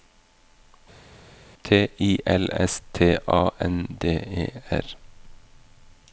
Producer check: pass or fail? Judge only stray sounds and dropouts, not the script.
pass